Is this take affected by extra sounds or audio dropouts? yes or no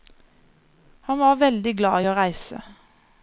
no